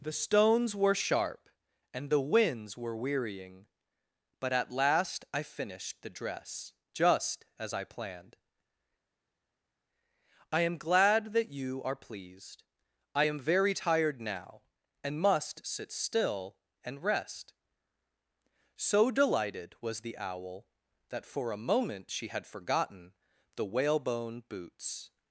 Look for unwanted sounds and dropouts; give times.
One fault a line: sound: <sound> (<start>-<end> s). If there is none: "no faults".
no faults